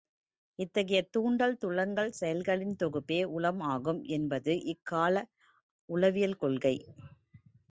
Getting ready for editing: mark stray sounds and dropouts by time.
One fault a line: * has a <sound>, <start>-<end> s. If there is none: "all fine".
all fine